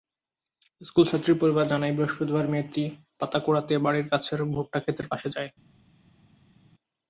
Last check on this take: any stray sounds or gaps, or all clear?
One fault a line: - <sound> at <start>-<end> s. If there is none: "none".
none